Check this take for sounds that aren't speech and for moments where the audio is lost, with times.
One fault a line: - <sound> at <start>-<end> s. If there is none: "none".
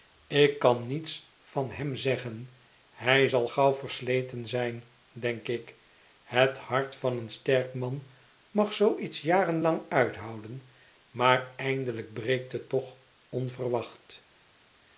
none